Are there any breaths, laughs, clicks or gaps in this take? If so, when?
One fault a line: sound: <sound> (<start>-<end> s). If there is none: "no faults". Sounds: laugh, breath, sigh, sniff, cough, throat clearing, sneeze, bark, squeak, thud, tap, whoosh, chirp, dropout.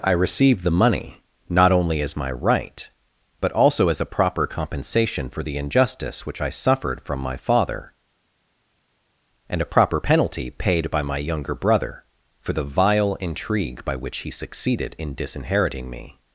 no faults